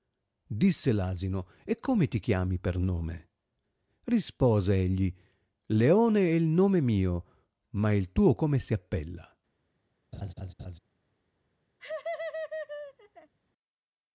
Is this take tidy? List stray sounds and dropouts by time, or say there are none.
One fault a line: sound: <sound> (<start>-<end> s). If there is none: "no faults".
sound: laugh (10.1-10.8 s)
sound: laugh (11.8-13.3 s)